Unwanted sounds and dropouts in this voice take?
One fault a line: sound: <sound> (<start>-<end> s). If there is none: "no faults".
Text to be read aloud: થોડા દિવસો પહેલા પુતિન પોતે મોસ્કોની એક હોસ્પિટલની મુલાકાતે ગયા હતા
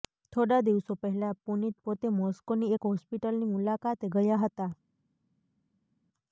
no faults